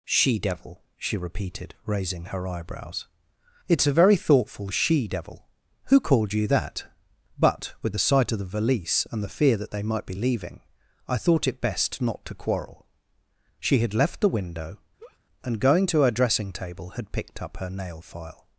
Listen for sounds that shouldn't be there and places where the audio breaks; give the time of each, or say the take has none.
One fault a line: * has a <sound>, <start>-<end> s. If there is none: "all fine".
* has a laugh, 15.0-15.2 s